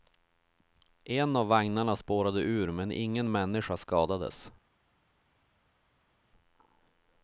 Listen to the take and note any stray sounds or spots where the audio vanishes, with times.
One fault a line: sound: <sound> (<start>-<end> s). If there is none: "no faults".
no faults